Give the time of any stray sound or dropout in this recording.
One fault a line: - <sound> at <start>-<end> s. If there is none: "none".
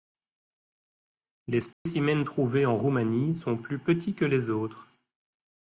- dropout at 1.7-1.9 s